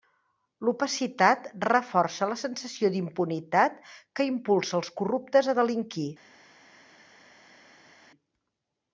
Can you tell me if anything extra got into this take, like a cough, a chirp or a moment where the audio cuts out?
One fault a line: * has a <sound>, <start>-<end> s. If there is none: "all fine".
all fine